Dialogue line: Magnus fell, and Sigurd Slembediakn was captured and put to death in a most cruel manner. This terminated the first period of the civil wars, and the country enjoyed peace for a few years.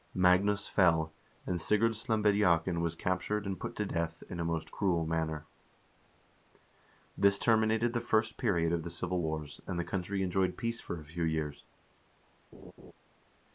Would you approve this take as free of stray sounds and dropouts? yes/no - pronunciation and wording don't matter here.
no